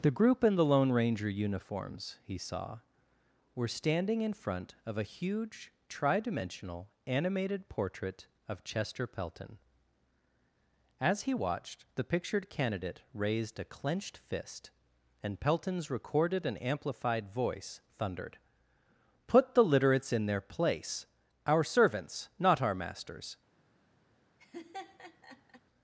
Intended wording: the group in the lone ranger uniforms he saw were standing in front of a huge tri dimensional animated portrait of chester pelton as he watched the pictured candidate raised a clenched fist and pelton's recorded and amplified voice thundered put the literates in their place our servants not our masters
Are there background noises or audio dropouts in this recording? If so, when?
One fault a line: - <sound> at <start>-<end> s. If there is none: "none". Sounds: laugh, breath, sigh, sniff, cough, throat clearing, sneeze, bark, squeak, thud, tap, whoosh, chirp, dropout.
- laugh at 24.4-25.6 s